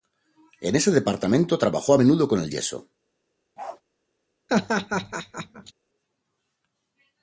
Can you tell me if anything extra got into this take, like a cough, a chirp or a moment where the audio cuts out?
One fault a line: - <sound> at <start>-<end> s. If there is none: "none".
- bark at 3.6-3.8 s
- laugh at 4.5-5.7 s